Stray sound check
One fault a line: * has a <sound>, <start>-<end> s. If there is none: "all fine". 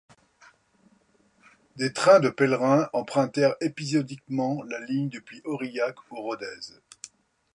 all fine